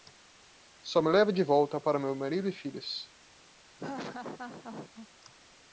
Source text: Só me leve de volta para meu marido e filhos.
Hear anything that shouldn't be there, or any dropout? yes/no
yes